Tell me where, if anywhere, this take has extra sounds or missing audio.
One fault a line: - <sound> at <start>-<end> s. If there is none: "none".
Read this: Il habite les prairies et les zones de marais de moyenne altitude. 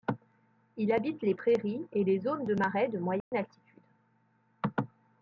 - dropout at 3.2-3.3 s